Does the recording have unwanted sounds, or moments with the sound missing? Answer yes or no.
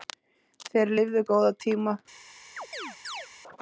yes